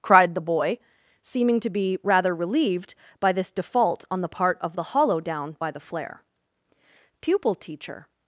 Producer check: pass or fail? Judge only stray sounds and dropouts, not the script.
pass